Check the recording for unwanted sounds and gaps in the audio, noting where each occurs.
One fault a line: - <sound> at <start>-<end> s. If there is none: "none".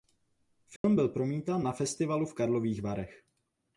- dropout at 0.8-0.8 s